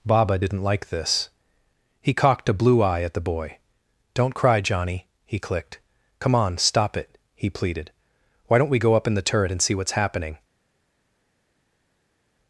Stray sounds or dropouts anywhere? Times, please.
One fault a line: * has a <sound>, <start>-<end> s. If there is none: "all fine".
all fine